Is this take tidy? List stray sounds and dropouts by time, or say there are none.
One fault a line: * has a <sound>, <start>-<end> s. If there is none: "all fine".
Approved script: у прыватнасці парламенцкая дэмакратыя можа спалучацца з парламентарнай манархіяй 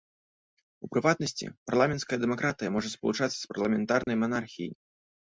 * has a dropout, 4.0-4.1 s